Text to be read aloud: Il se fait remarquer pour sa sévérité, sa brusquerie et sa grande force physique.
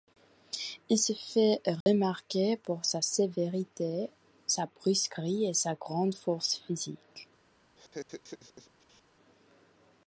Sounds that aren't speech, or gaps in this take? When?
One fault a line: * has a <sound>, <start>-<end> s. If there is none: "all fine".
* has a dropout, 1.8-1.9 s
* has a laugh, 7.8-9.0 s